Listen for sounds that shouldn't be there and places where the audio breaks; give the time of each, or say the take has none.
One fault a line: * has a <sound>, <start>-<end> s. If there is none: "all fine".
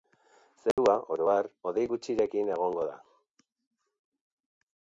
* has a dropout, 0.7-0.8 s